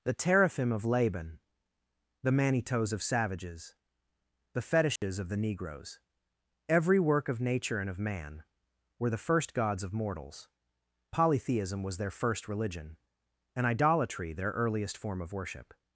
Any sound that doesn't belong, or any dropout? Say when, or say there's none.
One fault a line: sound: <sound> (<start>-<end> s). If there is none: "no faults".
sound: dropout (5.0-5.0 s)